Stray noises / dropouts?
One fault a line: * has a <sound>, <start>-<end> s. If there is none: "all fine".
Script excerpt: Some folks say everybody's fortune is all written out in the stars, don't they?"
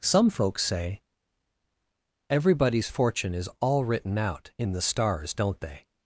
all fine